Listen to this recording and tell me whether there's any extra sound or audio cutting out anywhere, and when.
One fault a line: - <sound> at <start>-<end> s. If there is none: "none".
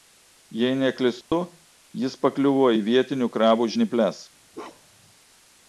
- dropout at 1.2-1.3 s
- bark at 4.5-5.1 s